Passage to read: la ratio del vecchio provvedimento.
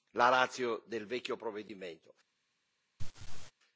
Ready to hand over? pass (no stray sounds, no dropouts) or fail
fail